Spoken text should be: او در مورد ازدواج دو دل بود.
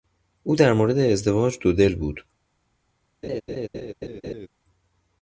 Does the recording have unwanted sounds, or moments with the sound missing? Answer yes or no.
yes